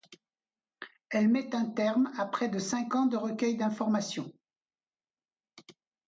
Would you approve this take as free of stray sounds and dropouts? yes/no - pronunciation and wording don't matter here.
yes